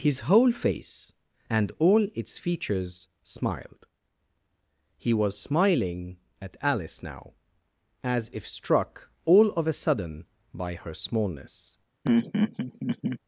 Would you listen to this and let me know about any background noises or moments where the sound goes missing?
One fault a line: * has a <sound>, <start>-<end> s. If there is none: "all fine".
* has a laugh, 12.0-13.2 s